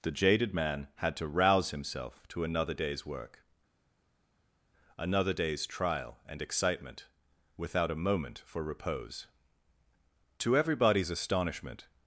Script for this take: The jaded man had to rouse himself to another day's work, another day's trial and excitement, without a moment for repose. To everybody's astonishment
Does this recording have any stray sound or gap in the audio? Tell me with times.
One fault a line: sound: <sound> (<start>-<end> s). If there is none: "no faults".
no faults